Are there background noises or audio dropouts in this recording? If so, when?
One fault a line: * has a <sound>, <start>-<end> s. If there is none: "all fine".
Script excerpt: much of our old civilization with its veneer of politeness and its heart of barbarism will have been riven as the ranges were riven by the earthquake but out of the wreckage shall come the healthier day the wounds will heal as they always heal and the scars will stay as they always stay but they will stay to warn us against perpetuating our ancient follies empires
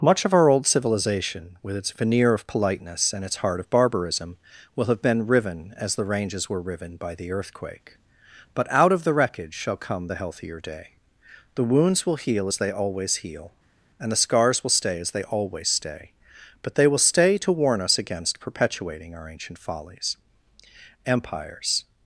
all fine